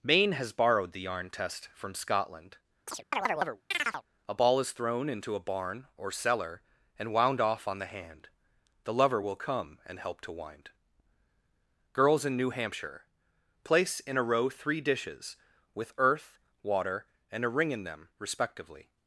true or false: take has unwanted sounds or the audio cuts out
true